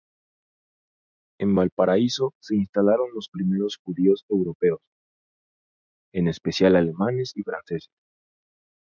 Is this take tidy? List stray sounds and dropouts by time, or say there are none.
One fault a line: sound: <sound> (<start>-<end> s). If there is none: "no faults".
no faults